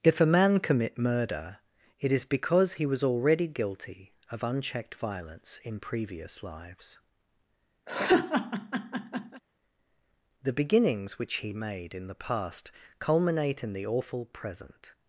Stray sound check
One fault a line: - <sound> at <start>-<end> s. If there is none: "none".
- laugh at 7.9-9.4 s